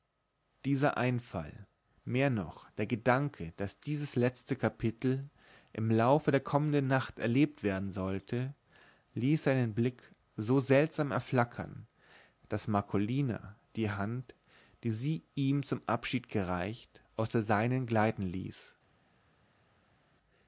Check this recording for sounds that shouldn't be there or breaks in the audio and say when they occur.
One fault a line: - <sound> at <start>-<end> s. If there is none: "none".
none